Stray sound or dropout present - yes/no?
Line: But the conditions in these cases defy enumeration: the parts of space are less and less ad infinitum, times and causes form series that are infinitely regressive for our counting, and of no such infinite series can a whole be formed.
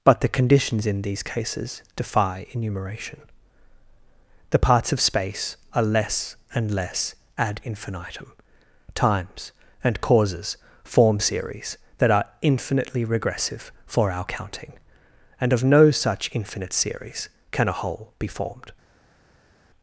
no